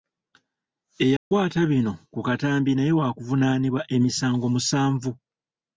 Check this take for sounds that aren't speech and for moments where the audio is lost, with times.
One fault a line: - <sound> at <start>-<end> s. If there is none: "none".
- dropout at 1.2-1.3 s